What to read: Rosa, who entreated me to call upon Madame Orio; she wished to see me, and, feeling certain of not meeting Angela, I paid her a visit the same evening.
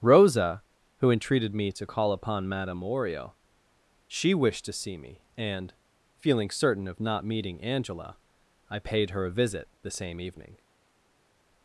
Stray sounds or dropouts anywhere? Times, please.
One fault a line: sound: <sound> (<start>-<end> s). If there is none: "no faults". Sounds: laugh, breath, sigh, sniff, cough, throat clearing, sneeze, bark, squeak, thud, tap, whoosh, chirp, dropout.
no faults